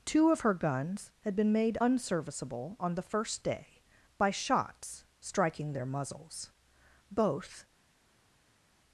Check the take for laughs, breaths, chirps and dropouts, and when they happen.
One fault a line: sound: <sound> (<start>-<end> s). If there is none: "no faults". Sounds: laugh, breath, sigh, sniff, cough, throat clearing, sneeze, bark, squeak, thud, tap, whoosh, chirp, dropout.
no faults